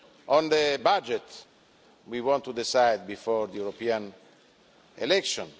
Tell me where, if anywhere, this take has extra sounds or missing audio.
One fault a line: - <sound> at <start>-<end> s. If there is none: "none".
none